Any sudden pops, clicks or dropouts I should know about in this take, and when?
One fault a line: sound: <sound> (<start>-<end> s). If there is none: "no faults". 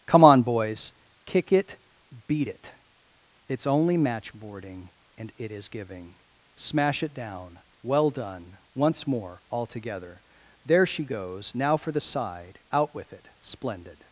no faults